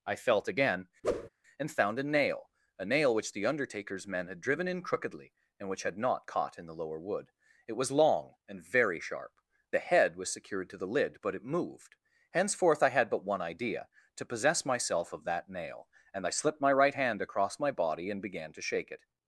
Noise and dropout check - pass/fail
fail